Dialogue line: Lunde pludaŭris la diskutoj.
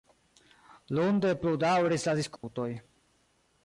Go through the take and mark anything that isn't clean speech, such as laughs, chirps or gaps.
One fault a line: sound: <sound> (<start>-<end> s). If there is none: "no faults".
sound: dropout (2.4-2.4 s)